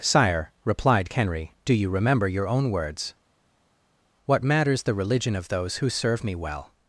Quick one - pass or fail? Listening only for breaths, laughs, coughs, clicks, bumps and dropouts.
pass